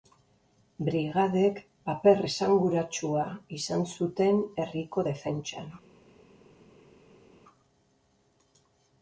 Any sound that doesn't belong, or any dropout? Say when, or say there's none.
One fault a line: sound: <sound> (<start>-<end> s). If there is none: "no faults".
no faults